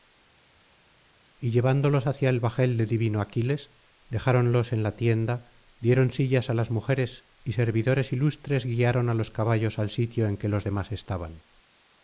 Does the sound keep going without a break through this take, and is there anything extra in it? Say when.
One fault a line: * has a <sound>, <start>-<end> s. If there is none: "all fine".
all fine